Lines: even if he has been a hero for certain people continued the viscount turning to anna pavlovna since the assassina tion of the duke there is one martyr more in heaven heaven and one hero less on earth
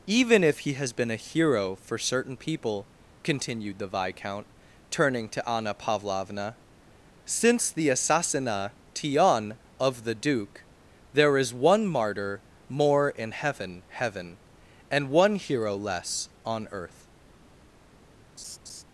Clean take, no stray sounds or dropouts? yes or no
no